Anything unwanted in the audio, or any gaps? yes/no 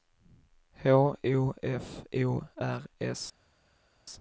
no